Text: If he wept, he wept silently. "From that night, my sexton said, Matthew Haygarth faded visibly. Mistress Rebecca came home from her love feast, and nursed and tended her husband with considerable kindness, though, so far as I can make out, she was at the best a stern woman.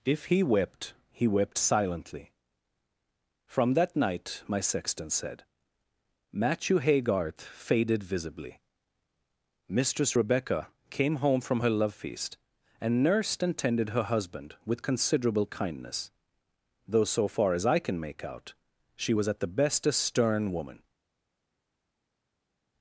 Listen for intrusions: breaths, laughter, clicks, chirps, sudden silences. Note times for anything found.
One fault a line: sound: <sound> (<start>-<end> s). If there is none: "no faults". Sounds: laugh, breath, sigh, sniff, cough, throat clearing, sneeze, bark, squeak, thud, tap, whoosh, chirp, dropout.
no faults